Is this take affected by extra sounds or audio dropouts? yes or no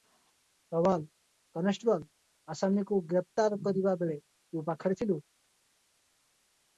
no